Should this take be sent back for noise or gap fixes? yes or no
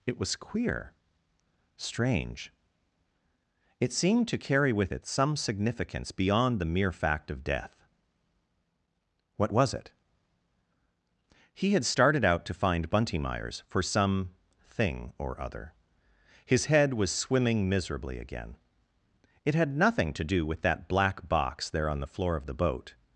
no